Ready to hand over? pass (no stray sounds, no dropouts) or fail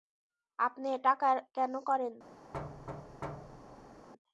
fail